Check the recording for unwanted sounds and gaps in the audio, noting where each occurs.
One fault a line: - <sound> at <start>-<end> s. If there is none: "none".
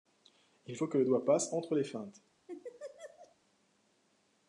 - laugh at 2.5-3.4 s